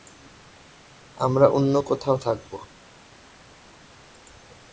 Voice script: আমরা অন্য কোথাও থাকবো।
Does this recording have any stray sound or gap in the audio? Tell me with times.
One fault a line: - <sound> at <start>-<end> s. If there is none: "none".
none